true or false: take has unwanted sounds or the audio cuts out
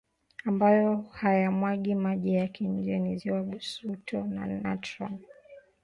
false